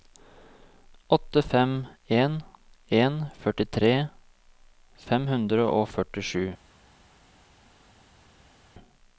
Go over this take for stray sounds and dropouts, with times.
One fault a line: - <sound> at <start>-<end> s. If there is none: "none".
none